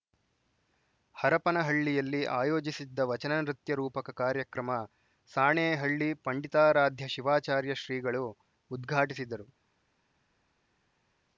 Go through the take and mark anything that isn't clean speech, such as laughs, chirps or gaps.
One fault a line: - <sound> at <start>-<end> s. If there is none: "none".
none